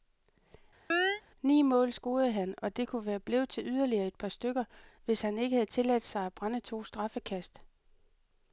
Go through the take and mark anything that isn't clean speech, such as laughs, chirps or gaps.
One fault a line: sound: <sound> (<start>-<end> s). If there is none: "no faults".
sound: chirp (0.9-1.2 s)